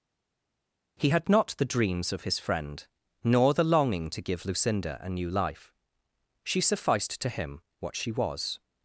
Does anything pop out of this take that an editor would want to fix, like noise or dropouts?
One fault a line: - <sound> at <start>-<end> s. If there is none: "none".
none